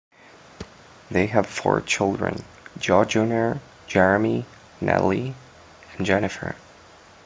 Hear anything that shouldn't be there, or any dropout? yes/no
yes